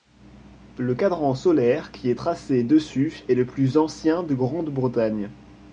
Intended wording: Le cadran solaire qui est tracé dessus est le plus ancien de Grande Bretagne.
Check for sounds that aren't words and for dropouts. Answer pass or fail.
pass